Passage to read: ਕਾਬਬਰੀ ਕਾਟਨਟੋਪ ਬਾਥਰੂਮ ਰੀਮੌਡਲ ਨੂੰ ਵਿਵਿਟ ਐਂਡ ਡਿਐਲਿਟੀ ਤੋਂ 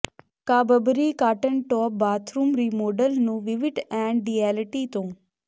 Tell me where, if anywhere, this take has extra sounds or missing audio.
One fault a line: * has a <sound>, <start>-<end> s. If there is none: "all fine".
all fine